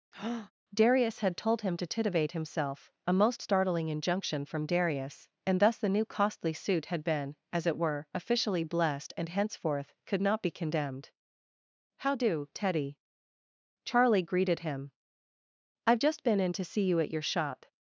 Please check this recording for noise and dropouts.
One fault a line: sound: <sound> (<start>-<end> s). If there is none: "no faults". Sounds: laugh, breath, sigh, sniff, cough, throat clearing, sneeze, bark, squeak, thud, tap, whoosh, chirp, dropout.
sound: breath (0.1-0.5 s)